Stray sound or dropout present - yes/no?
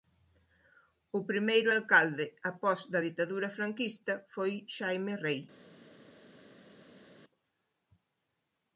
no